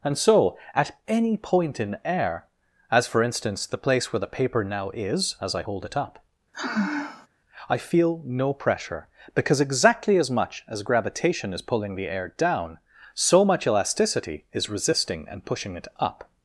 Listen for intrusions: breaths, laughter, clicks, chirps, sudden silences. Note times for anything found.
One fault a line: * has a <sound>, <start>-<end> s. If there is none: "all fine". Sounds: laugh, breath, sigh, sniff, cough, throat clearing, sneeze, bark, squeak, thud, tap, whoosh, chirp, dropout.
* has a sigh, 6.5-7.3 s